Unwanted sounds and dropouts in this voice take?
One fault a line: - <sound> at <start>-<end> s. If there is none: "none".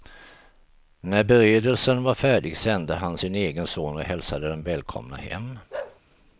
- bark at 5.7-6.0 s